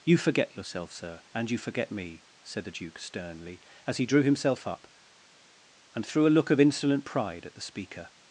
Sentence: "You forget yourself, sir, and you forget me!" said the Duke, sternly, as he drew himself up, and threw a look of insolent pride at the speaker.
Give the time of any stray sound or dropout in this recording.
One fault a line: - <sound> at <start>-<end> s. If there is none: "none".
none